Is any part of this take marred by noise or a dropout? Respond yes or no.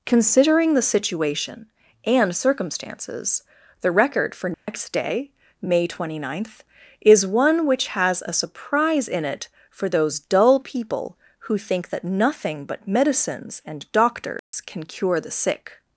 yes